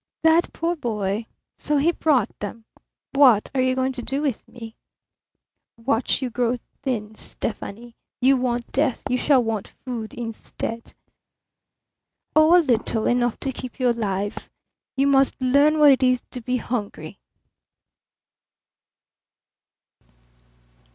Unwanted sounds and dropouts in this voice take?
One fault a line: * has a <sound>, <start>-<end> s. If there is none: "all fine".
all fine